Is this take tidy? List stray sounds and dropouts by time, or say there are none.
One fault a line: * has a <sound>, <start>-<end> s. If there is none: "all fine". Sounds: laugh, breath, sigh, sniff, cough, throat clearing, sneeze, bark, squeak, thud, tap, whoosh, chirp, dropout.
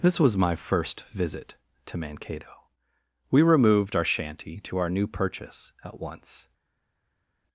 all fine